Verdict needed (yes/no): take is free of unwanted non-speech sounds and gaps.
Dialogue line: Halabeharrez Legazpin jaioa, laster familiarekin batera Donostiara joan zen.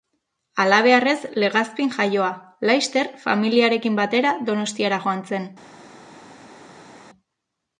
yes